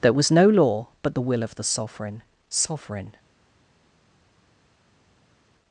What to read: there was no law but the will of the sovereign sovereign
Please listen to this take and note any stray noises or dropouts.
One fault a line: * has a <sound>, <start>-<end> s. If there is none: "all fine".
all fine